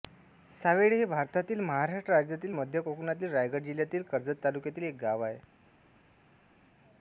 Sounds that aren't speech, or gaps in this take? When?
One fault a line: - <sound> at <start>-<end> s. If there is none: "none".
none